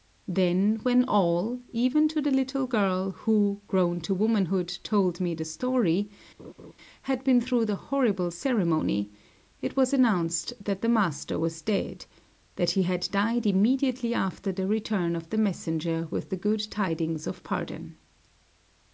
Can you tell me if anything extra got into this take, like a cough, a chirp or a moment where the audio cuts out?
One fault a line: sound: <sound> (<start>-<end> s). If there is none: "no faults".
sound: laugh (6.4-6.7 s)